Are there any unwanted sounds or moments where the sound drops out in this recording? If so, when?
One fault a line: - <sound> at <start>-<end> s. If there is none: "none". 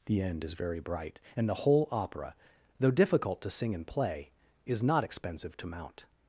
none